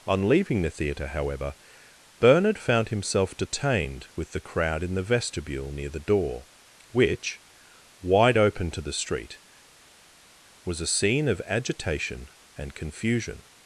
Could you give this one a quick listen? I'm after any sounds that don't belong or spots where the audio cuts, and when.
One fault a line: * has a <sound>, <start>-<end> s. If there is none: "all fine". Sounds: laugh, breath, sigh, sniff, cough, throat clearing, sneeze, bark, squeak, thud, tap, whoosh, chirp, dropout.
all fine